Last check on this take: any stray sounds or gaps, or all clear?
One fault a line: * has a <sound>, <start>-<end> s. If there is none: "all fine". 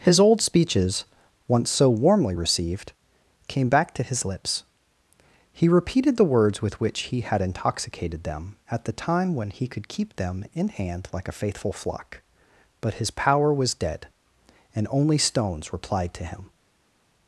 all fine